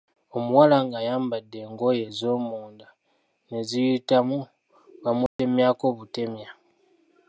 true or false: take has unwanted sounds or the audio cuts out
true